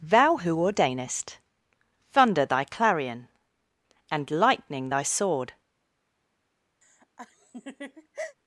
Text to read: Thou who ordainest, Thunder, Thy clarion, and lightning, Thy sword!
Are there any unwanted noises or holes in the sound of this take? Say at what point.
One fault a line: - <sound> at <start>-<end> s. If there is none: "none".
- laugh at 6.8-8.4 s